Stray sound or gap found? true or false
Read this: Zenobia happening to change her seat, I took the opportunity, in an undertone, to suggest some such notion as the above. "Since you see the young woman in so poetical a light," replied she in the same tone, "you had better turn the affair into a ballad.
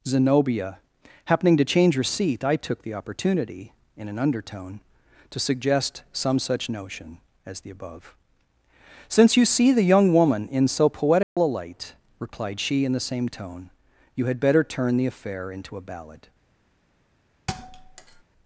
true